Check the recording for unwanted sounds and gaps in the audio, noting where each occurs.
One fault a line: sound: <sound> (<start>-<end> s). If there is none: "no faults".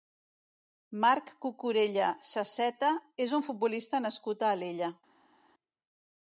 no faults